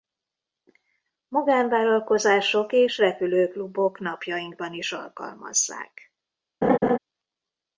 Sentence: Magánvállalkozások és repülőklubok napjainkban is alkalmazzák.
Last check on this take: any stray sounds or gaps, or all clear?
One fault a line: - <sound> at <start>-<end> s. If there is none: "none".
- laugh at 6.6-7.0 s